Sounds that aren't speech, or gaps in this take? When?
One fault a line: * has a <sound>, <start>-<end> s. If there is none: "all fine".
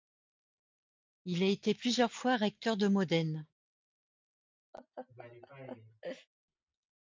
* has a laugh, 4.7-6.3 s